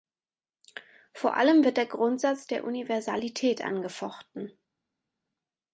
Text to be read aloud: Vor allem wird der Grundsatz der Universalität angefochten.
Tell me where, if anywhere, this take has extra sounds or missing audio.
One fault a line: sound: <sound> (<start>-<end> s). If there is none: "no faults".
no faults